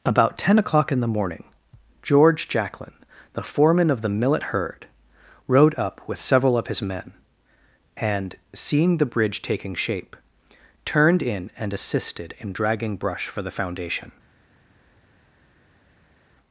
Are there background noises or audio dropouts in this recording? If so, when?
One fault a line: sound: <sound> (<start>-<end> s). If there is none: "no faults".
no faults